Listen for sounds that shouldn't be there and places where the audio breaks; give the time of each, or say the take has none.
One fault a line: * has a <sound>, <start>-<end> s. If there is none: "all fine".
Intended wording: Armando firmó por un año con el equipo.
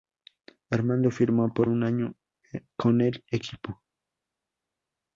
all fine